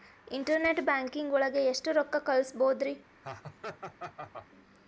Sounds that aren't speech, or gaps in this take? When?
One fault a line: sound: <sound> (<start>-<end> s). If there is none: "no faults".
sound: laugh (3.2-4.5 s)